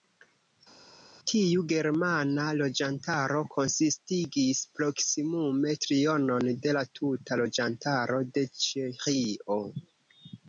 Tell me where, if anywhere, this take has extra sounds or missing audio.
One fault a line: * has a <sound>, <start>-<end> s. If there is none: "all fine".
all fine